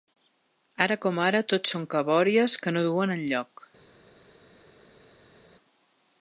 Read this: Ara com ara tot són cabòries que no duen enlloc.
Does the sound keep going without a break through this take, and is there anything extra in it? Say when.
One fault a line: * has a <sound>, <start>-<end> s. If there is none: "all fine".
all fine